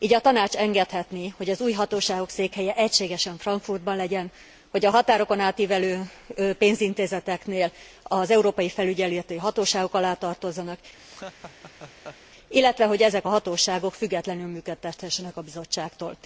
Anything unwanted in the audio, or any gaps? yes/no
yes